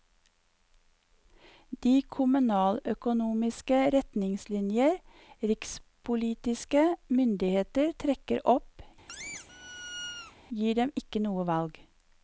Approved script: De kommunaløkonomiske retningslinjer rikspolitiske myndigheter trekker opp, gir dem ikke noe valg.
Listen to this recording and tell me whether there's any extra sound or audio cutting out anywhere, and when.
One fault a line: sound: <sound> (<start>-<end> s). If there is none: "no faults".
sound: squeak (9.1-10.4 s)